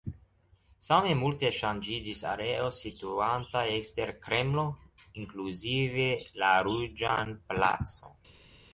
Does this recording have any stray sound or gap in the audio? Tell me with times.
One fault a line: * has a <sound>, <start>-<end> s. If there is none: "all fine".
all fine